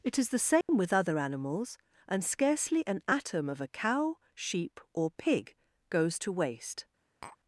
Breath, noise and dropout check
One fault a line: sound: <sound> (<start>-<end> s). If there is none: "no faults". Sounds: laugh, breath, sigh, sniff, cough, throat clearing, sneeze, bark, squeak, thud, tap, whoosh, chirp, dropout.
sound: dropout (0.6-0.7 s)
sound: tap (7.2-7.4 s)